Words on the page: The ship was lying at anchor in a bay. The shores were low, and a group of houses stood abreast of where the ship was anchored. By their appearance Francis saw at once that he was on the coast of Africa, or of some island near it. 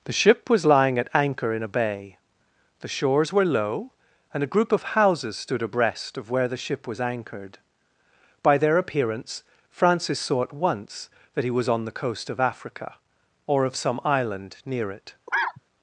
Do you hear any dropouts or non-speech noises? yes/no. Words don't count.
yes